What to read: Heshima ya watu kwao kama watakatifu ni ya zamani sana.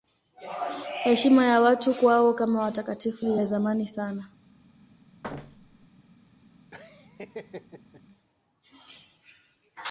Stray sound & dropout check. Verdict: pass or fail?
fail